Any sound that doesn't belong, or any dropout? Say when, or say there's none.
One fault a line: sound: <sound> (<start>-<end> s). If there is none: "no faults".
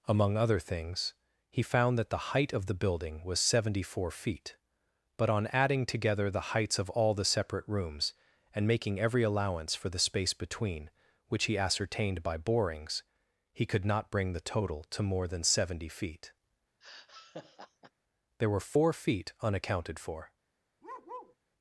sound: laugh (16.8-17.9 s)
sound: bark (20.8-21.4 s)